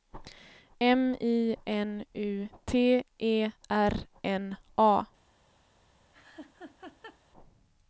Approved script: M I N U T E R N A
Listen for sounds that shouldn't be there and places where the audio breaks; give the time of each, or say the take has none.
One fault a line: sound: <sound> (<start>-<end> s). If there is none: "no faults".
sound: laugh (6.1-7.2 s)